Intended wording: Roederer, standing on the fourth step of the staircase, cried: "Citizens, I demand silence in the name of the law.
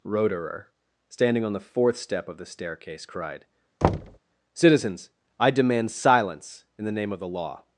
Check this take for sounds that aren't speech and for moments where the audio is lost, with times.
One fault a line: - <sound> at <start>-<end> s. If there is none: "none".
- thud at 3.8-4.2 s